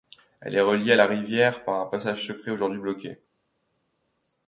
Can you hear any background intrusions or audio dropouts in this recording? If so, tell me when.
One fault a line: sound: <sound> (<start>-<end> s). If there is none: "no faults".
no faults